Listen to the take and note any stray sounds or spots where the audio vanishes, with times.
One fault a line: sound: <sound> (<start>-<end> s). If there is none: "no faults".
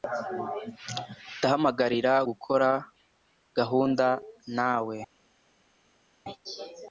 no faults